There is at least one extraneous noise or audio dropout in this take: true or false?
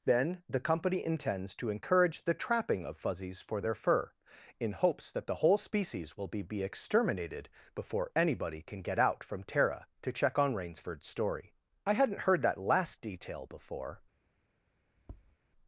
true